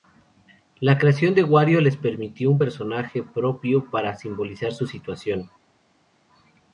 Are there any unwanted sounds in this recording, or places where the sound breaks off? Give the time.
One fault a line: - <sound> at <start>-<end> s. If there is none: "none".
none